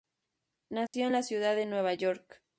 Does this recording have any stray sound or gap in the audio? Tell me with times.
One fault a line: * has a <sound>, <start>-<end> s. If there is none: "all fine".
* has a dropout, 0.9-0.9 s